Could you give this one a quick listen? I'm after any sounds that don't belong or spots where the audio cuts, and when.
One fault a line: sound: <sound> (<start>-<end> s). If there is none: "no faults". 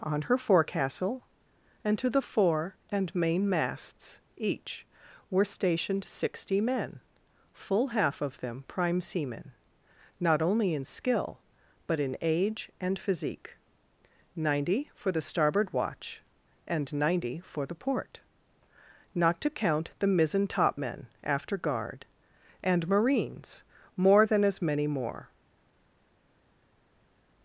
no faults